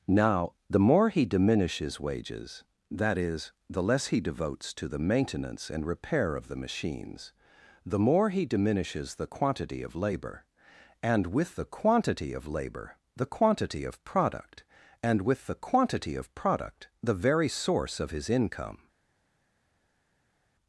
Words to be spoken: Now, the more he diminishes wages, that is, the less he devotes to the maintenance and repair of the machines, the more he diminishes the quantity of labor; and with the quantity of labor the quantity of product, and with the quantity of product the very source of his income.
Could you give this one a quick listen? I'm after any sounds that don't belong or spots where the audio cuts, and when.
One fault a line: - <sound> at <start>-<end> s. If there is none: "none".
none